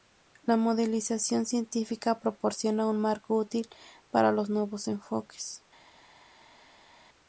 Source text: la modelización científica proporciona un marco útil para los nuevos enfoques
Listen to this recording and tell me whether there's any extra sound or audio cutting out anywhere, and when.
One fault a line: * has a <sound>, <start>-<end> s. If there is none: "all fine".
all fine